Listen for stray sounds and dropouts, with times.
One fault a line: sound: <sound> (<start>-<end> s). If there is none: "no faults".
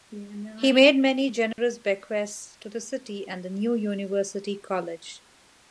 sound: dropout (1.5-1.6 s)